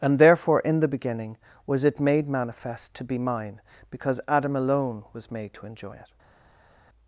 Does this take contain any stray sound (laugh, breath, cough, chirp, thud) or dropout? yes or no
no